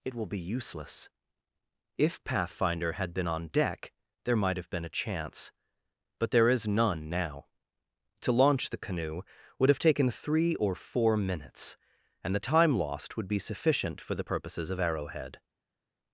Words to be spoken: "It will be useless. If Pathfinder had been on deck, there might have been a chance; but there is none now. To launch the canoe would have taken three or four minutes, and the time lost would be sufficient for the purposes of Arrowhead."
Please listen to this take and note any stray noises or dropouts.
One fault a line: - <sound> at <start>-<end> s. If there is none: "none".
none